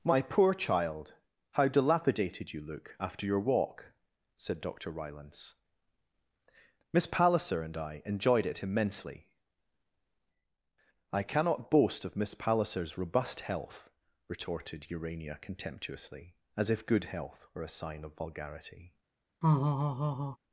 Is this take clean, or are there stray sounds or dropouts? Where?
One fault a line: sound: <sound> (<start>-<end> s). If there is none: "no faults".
sound: laugh (19.4-20.4 s)